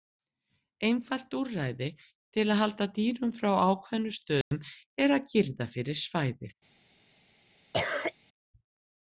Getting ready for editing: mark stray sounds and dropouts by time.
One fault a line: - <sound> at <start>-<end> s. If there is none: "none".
- dropout at 4.4-4.5 s
- cough at 7.7-8.1 s